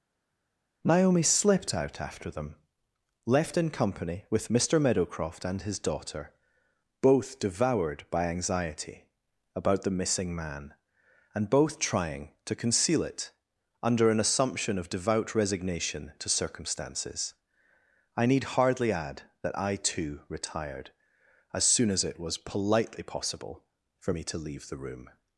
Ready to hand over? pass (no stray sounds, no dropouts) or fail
pass